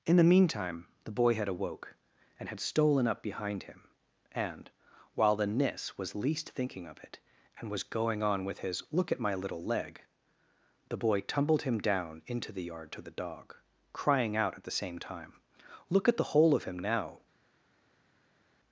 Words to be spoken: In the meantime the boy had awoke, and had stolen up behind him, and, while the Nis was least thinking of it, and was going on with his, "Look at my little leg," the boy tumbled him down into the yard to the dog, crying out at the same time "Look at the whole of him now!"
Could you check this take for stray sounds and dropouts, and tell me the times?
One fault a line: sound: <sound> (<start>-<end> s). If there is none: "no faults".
no faults